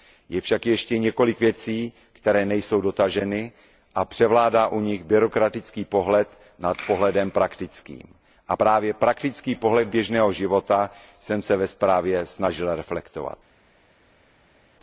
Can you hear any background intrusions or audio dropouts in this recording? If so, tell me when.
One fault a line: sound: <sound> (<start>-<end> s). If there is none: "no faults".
no faults